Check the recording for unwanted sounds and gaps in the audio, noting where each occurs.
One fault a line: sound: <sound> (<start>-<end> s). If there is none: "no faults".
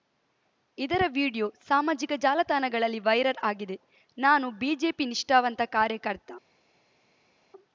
no faults